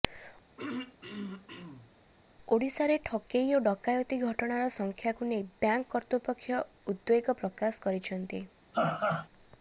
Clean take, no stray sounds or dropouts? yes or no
no